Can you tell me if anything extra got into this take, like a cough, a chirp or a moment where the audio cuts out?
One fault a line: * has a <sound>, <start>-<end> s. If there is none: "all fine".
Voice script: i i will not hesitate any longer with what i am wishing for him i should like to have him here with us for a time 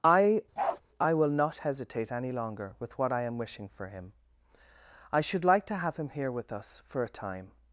* has a bark, 0.6-0.8 s